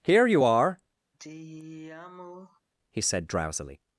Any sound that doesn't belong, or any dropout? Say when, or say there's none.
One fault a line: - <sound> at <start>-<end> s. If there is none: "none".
- sigh at 1.1-2.6 s